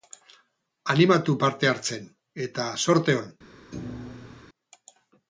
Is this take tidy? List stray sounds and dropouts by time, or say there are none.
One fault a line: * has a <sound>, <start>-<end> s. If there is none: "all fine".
* has a thud, 3.7-4.4 s